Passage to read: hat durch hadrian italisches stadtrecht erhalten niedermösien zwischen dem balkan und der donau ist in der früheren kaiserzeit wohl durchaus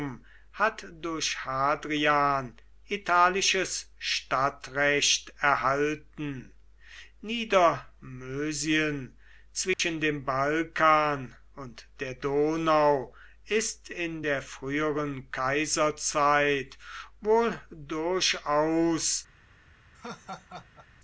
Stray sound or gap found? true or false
true